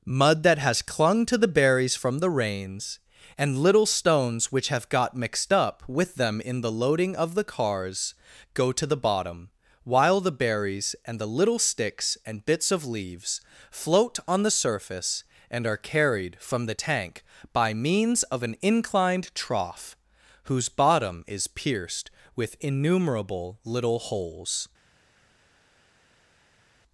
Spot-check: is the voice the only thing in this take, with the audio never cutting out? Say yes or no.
yes